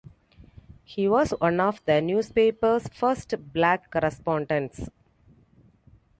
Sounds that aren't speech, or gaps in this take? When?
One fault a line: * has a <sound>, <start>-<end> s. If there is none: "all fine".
all fine